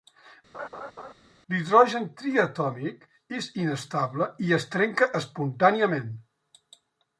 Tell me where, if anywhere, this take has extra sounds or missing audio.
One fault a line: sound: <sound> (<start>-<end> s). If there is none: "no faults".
sound: laugh (0.5-1.1 s)